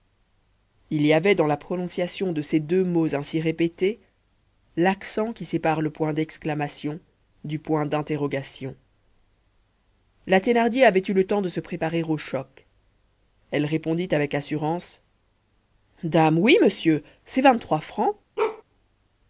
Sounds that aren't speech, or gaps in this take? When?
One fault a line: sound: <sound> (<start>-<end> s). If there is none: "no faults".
sound: bark (18.4-18.6 s)